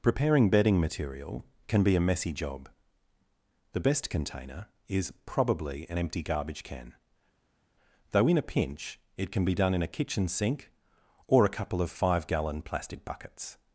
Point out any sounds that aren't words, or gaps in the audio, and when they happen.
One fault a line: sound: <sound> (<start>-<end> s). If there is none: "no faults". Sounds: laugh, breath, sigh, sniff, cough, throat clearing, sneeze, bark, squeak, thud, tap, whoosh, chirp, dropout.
no faults